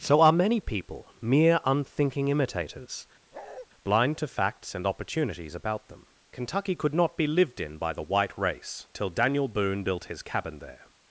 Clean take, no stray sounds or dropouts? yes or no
no